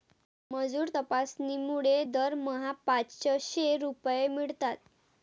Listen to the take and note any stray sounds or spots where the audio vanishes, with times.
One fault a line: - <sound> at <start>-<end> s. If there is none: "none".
none